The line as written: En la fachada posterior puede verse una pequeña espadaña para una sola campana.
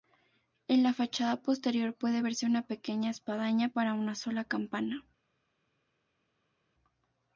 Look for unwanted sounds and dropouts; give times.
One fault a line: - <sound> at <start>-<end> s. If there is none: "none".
none